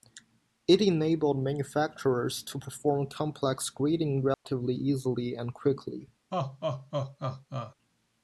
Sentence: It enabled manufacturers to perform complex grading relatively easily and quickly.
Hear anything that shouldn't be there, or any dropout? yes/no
yes